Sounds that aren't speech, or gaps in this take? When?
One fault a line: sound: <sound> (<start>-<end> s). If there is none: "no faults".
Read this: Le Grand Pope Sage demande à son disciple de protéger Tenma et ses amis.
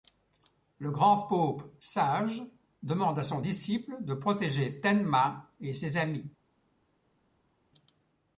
no faults